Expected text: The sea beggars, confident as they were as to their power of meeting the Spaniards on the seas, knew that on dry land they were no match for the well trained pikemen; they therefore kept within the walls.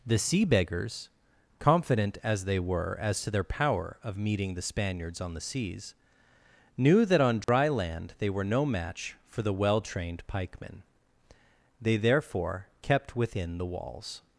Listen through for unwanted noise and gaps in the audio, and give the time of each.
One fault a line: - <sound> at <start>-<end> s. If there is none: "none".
- dropout at 7.4-7.5 s